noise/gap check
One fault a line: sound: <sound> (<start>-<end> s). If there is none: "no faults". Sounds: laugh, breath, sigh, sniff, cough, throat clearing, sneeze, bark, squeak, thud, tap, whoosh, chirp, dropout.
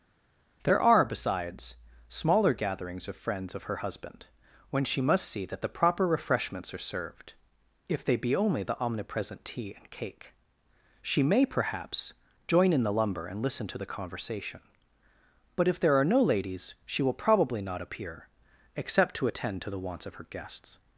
no faults